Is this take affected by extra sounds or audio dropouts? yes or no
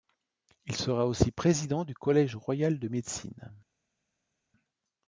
no